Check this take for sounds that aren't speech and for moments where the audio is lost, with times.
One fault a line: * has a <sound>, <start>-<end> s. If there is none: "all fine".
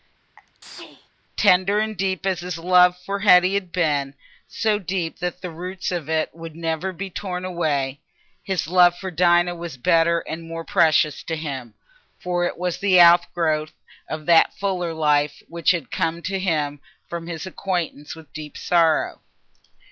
* has a sneeze, 0.4-1.1 s